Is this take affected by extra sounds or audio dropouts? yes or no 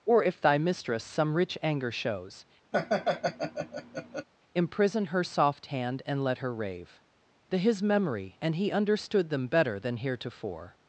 yes